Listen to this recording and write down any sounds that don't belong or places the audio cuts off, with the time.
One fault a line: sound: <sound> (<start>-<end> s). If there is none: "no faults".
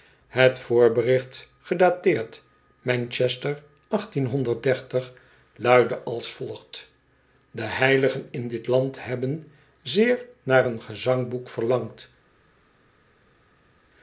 no faults